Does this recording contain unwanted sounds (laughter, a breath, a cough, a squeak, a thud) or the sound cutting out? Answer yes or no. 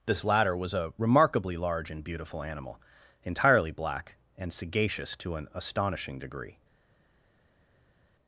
no